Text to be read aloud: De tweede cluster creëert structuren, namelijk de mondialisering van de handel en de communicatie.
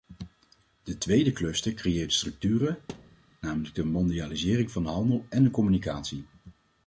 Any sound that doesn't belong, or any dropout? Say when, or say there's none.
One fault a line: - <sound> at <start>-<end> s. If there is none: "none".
- thud at 2.9-3.2 s